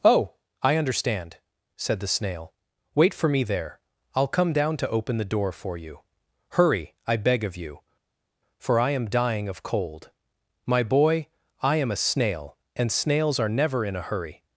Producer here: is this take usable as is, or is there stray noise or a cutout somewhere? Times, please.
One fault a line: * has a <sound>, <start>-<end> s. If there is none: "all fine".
all fine